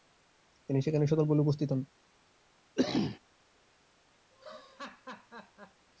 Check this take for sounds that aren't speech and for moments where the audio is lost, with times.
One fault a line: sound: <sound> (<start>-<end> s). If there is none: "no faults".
sound: cough (2.8-3.2 s)
sound: laugh (4.3-5.9 s)